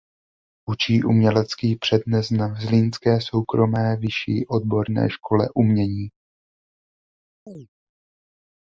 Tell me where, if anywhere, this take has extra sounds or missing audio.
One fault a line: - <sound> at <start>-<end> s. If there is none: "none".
- chirp at 7.5-7.7 s